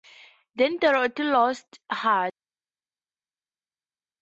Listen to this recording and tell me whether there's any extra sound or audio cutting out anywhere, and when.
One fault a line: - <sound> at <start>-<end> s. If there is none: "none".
none